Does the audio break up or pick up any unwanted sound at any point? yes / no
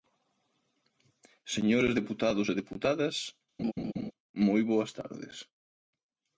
yes